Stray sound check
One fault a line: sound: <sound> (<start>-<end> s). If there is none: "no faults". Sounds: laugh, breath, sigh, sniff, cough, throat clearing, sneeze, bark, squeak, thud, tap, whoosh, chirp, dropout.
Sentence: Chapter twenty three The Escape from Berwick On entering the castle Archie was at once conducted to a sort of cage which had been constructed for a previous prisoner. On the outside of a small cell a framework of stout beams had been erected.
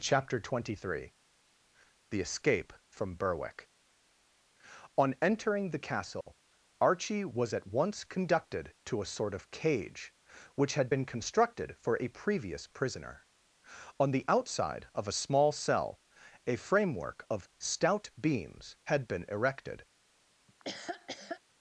sound: dropout (6.2-6.3 s)
sound: laugh (20.5-21.4 s)